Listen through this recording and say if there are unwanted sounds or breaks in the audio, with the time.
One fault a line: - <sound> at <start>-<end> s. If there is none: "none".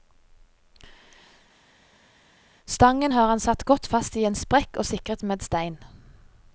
none